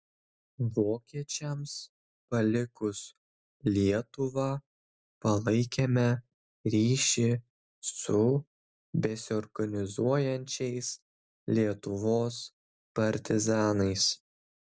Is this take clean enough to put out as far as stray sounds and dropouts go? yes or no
yes